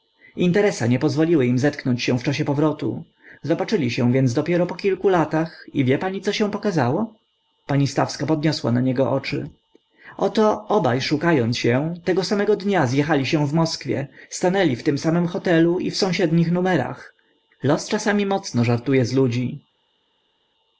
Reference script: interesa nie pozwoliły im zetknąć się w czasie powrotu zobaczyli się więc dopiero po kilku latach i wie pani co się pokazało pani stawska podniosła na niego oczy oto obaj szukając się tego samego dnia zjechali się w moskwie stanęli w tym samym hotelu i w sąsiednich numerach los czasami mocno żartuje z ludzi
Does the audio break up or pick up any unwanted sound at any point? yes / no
no